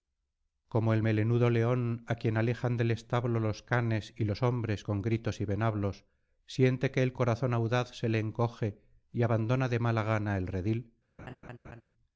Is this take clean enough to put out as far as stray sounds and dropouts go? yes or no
no